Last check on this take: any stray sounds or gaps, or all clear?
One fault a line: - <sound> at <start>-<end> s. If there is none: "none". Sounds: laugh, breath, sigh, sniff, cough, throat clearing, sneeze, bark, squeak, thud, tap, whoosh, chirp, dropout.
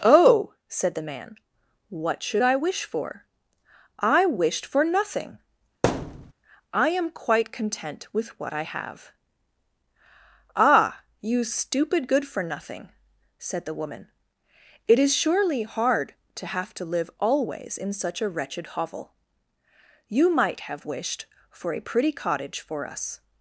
- thud at 5.8-6.3 s